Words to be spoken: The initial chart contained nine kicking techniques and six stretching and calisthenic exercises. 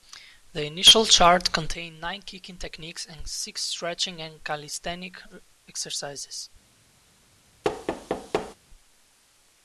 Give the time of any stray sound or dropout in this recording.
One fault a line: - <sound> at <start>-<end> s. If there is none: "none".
- thud at 7.6-8.6 s